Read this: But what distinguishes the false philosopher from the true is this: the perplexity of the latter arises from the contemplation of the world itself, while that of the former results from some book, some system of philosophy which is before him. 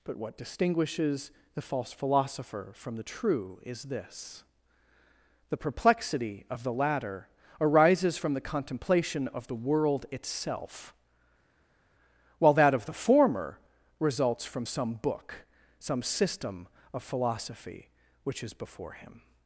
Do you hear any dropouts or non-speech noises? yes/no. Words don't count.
no